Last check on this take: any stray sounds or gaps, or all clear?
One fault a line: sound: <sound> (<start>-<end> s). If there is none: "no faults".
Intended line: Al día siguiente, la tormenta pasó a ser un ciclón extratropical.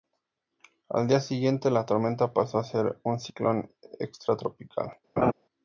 sound: laugh (5.2-5.3 s)